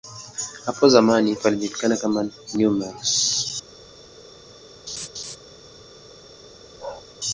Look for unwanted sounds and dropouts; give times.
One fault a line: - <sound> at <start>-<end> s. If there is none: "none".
- laugh at 4.9-5.4 s
- bark at 6.8-7.0 s